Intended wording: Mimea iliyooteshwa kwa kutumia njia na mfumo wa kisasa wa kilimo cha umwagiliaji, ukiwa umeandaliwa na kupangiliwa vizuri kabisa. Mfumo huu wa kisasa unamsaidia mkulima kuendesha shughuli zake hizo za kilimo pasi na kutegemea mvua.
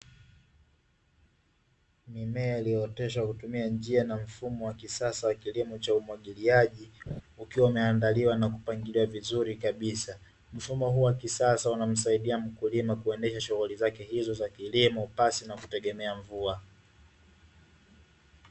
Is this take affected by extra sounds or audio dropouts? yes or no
yes